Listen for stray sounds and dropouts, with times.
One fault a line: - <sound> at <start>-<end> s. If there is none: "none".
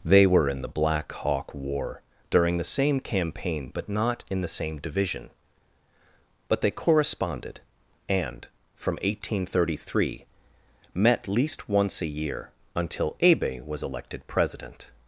none